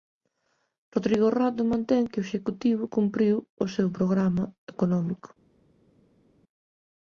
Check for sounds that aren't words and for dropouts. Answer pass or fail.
pass